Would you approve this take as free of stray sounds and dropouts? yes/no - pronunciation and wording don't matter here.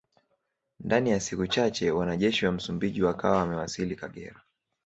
yes